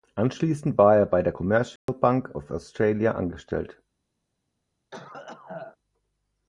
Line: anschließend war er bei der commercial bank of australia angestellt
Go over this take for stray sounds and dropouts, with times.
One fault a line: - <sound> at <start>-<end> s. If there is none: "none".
- dropout at 1.8-1.9 s
- cough at 4.9-5.8 s